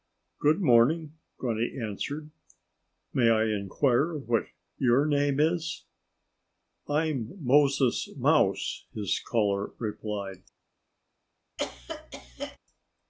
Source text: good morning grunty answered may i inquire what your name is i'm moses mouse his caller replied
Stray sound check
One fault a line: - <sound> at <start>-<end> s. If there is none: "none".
- cough at 11.6-12.6 s